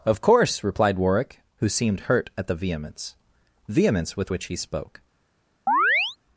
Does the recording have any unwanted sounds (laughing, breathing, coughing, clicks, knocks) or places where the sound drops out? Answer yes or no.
yes